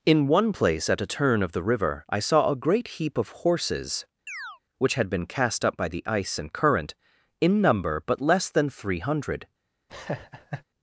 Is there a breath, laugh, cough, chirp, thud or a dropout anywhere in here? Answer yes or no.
yes